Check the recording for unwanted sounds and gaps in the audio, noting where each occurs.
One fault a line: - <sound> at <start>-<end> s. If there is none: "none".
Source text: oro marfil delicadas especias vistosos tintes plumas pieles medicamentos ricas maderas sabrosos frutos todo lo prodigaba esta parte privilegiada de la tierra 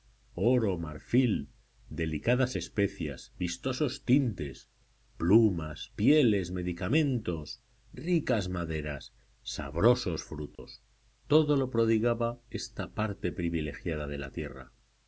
- dropout at 10.6-10.6 s